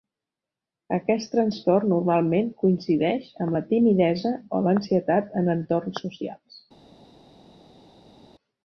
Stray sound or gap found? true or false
false